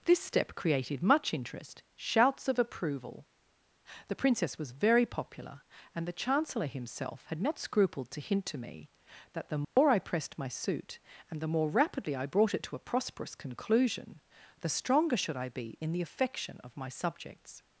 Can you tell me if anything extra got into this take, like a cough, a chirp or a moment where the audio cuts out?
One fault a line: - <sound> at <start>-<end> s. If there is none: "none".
- dropout at 9.6-9.8 s